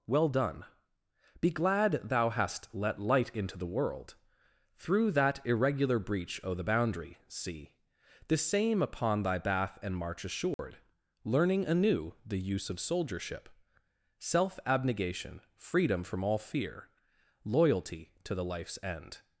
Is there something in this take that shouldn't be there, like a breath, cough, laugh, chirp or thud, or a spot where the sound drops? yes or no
yes